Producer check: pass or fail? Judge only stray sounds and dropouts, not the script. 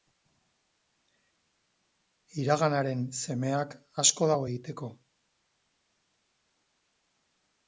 pass